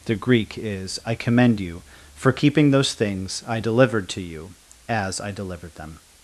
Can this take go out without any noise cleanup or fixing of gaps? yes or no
yes